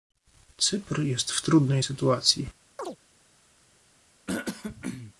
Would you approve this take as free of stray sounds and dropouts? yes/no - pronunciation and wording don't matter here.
no